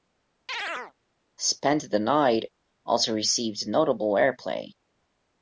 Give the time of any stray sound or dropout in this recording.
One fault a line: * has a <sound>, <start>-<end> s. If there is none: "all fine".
* has a chirp, 0.5-0.9 s